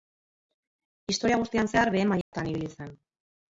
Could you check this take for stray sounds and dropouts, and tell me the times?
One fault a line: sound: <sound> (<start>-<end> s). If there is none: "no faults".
sound: dropout (2.2-2.3 s)